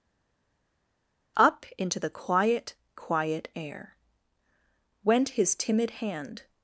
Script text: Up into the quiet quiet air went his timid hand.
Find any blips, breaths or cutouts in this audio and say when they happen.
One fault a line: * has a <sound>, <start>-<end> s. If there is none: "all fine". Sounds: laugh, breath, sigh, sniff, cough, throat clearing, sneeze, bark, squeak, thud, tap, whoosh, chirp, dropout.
all fine